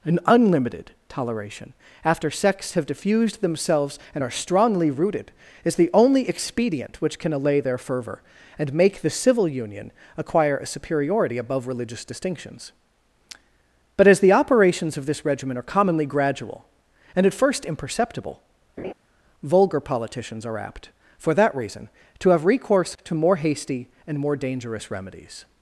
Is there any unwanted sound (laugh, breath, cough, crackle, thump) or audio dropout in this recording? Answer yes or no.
yes